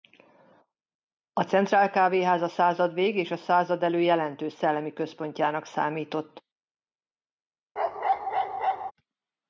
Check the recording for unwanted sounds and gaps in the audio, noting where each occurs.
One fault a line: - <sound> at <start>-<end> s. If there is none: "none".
- bark at 7.8-8.9 s